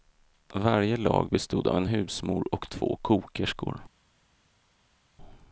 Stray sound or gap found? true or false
false